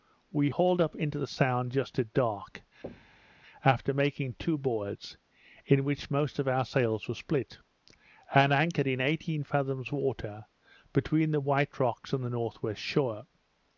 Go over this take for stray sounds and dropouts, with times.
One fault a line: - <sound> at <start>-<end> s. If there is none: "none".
- thud at 2.8-3.4 s